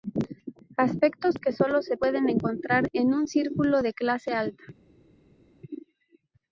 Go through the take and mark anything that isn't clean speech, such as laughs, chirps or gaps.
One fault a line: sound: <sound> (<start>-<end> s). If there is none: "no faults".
no faults